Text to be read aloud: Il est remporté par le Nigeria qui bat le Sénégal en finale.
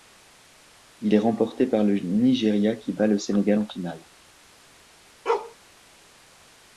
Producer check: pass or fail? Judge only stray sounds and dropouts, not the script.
fail